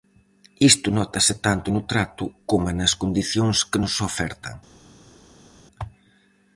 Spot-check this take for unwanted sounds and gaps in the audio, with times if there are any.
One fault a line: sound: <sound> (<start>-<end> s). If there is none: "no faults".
no faults